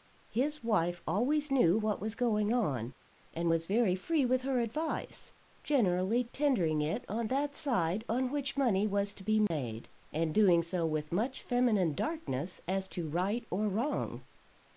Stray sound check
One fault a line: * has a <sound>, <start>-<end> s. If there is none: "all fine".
* has a dropout, 9.5-9.5 s